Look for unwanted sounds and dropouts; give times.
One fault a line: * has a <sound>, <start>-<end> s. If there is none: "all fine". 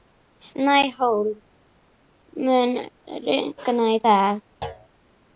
* has a thud, 4.6-4.9 s